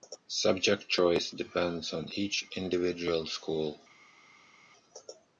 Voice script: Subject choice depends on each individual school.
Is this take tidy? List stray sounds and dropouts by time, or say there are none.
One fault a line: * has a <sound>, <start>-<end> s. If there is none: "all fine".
all fine